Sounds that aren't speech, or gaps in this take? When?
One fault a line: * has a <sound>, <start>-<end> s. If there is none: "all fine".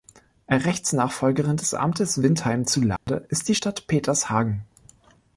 * has a dropout, 3.0-3.1 s